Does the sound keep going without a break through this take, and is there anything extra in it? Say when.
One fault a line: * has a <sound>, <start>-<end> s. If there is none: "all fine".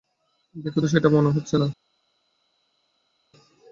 all fine